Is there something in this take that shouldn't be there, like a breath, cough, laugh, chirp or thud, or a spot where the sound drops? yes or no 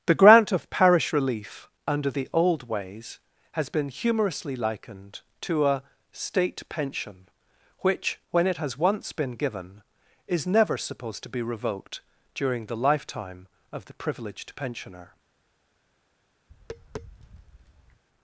yes